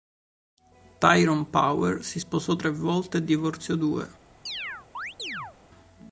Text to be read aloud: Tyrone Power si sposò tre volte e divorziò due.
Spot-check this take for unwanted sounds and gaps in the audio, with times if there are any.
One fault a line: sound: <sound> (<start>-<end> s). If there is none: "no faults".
sound: chirp (4.5-5.6 s)